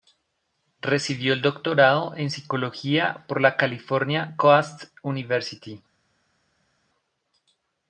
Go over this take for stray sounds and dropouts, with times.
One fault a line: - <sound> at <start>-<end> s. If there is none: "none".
none